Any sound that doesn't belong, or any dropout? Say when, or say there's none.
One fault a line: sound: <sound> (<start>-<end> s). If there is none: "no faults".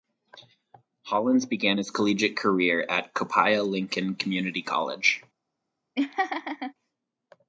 sound: laugh (5.9-6.7 s)